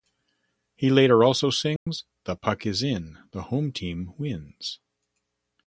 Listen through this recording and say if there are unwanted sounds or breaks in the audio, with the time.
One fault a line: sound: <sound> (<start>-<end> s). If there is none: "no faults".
sound: dropout (1.8-1.9 s)